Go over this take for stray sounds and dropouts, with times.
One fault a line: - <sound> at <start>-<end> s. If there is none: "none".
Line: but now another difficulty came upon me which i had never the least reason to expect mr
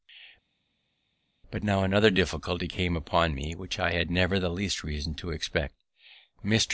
none